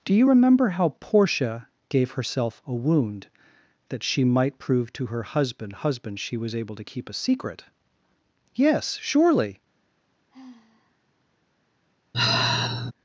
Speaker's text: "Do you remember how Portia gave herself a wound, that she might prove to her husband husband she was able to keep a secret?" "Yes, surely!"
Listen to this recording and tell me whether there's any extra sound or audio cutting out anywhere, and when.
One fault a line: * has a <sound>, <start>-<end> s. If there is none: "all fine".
* has a sigh, 10.3-11.0 s
* has a sigh, 12.1-12.9 s